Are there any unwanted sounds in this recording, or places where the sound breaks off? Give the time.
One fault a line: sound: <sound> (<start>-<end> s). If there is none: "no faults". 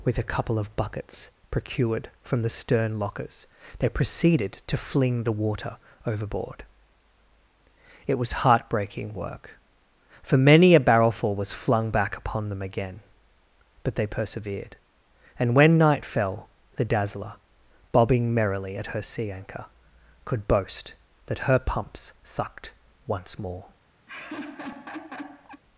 sound: laugh (24.1-25.6 s)